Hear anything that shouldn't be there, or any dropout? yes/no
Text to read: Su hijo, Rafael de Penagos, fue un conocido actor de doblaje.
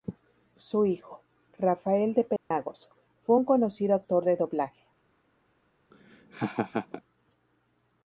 yes